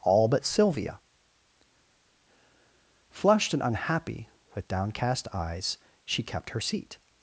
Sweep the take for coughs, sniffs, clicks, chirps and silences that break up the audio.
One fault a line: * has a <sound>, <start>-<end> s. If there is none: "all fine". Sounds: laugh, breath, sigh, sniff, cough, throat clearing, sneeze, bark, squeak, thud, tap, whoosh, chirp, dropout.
all fine